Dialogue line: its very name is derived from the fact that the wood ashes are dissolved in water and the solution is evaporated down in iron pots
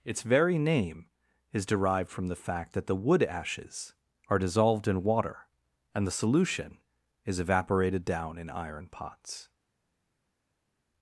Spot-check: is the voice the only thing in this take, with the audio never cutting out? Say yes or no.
yes